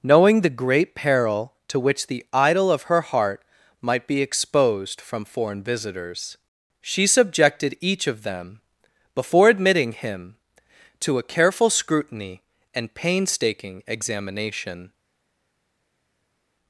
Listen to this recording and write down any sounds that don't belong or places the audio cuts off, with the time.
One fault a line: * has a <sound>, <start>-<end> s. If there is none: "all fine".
all fine